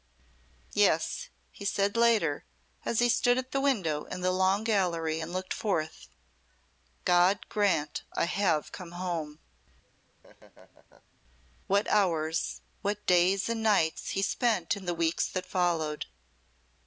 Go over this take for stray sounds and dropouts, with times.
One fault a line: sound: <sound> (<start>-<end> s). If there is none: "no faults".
sound: laugh (9.8-11.2 s)